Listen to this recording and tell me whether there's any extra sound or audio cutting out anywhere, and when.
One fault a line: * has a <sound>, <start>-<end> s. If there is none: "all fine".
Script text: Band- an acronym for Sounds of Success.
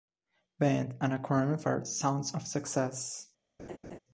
* has a laugh, 3.6-4.0 s